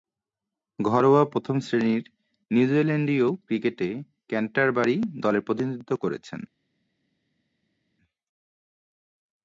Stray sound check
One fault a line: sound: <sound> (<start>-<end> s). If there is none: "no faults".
no faults